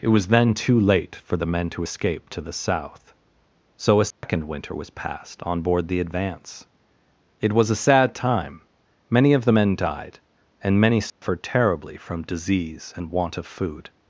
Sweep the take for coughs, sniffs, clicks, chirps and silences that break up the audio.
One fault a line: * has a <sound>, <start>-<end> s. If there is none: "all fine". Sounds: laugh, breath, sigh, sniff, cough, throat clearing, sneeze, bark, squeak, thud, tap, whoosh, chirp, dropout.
* has a dropout, 4.1-4.2 s
* has a dropout, 11.1-11.2 s